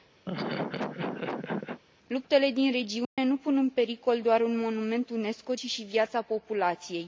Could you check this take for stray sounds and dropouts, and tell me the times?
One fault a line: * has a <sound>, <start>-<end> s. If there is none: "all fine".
* has a laugh, 0.3-1.8 s
* has a dropout, 3.0-3.2 s